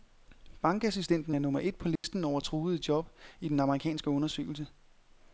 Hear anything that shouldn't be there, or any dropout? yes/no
yes